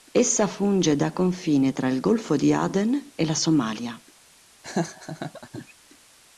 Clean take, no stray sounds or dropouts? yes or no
no